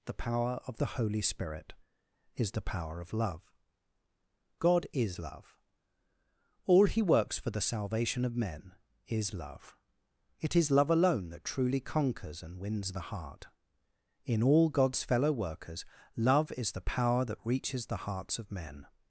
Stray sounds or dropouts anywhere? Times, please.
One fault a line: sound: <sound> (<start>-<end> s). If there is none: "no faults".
no faults